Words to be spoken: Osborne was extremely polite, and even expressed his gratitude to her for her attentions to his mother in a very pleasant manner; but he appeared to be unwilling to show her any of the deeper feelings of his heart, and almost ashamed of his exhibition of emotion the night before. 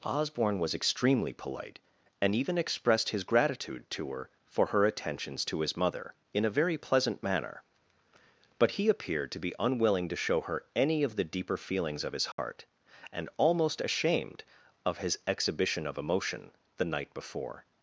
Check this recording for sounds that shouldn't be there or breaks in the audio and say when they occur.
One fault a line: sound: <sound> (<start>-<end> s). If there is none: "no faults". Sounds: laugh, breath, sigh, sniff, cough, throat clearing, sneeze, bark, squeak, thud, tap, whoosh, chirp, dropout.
sound: dropout (12.3-12.4 s)